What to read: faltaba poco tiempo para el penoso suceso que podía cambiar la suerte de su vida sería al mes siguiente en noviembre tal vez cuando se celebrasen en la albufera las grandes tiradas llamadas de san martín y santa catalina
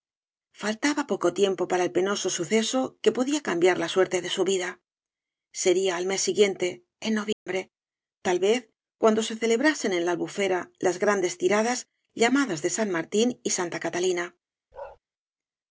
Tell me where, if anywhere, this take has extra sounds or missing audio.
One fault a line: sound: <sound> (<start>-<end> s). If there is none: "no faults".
sound: dropout (7.3-7.5 s)
sound: bark (14.7-15.0 s)